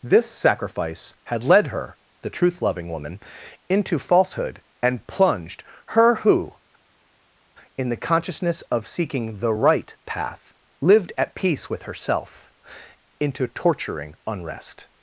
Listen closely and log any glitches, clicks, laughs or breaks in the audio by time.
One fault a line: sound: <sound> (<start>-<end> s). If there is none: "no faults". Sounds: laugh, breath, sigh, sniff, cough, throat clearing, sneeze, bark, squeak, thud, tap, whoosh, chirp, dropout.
no faults